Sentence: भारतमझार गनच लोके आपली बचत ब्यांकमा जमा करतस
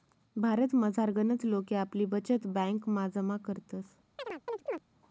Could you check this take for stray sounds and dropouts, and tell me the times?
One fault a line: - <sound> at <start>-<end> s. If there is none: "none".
- chirp at 4.2-4.8 s